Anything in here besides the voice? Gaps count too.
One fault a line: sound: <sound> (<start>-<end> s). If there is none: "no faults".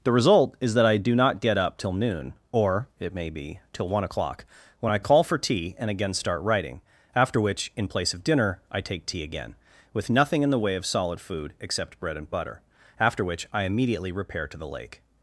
no faults